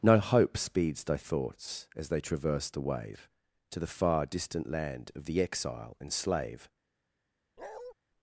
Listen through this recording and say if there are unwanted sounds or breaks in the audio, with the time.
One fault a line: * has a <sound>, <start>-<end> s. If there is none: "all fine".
* has a bark, 7.6-7.9 s